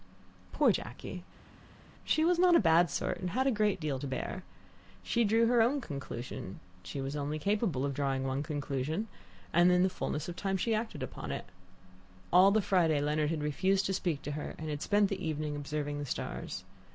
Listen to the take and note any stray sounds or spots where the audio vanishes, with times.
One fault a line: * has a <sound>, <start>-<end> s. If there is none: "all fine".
all fine